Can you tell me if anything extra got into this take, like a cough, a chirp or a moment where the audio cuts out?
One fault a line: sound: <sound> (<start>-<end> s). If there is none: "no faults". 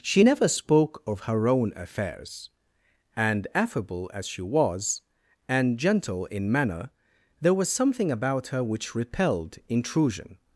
no faults